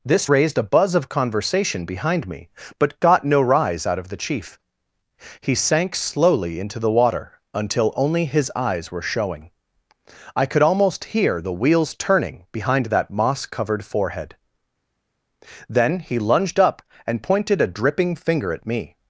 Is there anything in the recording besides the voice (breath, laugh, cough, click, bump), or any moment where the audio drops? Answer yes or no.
no